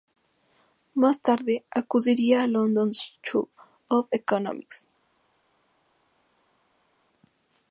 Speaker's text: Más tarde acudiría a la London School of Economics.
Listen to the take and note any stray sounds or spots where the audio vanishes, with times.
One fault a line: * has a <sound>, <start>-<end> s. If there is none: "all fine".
all fine